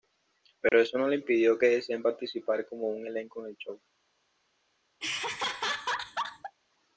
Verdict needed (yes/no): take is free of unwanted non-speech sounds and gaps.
no